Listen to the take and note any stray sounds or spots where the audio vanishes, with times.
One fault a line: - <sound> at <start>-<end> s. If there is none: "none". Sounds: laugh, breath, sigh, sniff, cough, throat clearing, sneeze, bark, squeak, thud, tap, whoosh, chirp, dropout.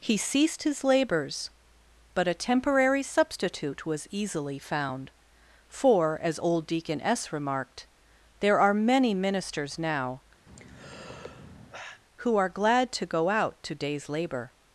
- sigh at 10.5-12.0 s